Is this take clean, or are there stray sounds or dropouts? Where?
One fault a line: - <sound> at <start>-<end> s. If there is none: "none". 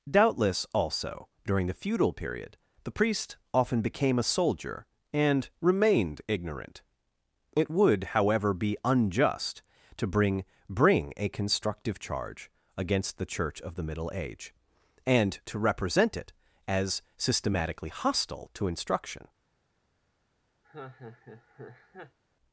- laugh at 20.6-22.2 s